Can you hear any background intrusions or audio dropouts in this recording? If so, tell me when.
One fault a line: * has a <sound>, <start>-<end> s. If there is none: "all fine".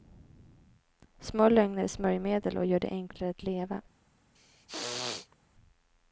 * has a throat clearing, 4.4-5.4 s